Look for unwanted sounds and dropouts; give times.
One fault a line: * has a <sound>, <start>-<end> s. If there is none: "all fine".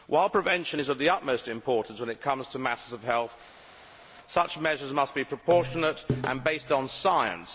all fine